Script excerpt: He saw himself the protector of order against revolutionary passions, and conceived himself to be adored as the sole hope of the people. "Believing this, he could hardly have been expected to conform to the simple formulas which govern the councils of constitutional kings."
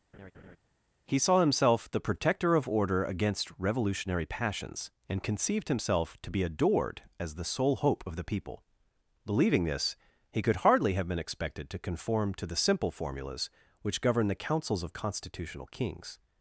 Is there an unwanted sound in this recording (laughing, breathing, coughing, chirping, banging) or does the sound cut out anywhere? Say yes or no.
yes